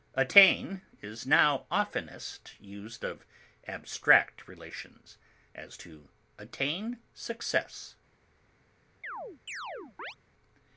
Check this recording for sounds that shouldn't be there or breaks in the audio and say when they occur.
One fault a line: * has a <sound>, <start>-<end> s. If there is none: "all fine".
* has a chirp, 9.0-10.2 s